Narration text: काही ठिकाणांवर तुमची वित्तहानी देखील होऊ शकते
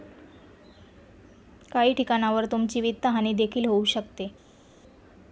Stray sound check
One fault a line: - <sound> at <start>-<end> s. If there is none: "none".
none